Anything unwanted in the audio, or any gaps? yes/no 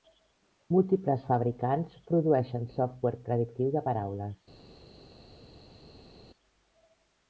no